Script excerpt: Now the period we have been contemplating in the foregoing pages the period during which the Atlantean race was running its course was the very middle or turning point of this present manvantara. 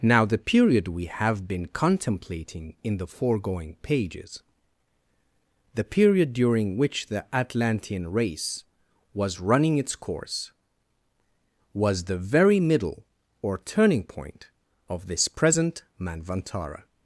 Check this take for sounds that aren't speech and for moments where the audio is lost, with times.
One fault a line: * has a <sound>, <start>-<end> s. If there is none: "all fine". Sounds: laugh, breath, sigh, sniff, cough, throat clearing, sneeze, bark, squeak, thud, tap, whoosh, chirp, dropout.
all fine